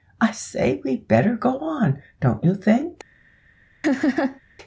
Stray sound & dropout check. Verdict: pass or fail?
fail